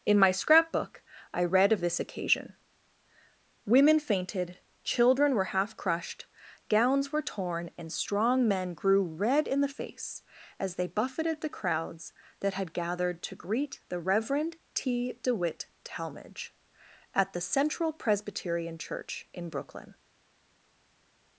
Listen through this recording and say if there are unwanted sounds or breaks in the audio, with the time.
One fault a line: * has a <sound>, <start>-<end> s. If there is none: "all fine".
all fine